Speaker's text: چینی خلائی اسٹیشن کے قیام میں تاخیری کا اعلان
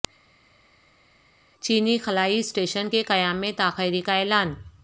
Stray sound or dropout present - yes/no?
no